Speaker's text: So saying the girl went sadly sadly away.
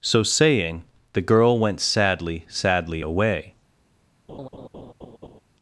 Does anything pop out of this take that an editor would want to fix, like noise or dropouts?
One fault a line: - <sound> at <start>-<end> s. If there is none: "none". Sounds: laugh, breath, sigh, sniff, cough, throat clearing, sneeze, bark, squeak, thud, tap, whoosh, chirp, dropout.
- laugh at 4.3-5.4 s